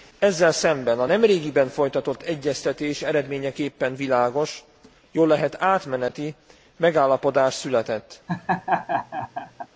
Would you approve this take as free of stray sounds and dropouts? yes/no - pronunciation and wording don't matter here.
no